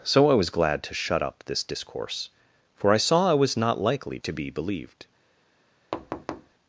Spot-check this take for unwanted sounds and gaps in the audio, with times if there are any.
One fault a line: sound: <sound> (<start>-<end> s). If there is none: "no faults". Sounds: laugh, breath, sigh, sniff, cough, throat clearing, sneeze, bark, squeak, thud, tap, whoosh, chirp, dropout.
sound: thud (5.9-6.5 s)